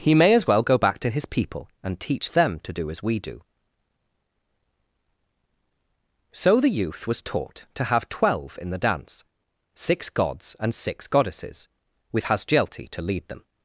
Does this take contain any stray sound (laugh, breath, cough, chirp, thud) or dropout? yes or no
no